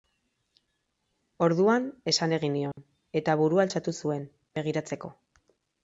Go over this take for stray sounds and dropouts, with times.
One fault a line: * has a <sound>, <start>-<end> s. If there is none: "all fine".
* has a dropout, 2.7-2.8 s